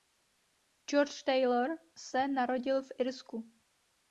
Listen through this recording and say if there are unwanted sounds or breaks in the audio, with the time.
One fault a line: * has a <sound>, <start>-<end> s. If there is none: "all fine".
all fine